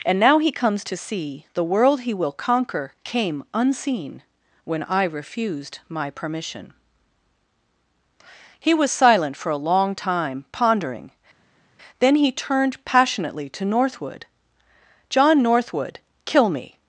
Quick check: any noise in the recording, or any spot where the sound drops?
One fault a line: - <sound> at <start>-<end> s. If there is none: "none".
none